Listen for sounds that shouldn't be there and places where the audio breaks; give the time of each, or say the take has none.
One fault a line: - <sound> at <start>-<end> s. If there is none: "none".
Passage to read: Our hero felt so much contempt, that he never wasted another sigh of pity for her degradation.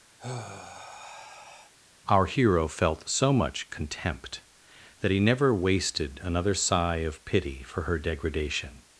- sigh at 0.2-1.7 s